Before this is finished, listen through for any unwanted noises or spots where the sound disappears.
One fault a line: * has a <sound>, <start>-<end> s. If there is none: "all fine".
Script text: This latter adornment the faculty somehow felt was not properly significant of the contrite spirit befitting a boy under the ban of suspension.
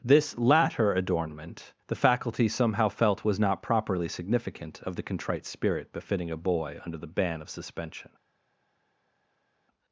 all fine